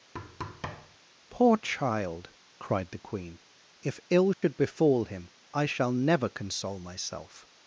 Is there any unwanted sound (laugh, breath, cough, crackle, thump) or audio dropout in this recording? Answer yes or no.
yes